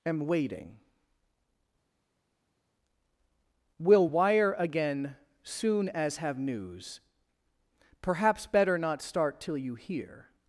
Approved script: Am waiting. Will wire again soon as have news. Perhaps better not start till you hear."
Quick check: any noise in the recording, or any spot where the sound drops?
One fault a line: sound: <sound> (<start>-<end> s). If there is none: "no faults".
no faults